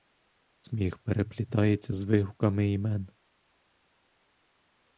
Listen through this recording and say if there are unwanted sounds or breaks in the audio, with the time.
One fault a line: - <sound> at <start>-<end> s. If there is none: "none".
none